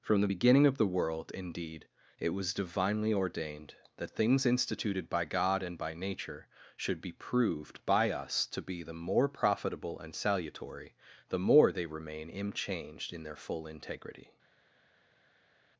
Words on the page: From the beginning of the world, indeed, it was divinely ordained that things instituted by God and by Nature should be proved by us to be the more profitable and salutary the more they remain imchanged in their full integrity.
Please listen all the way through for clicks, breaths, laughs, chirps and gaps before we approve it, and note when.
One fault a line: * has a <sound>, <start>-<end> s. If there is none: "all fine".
all fine